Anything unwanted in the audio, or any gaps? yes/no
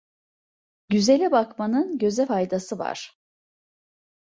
no